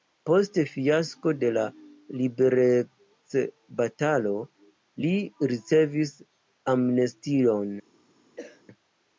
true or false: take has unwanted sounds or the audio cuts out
true